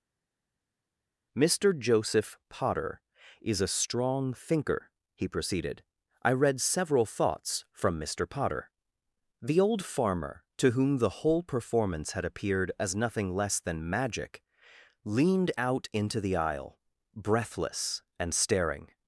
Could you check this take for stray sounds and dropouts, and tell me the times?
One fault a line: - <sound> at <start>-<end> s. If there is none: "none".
none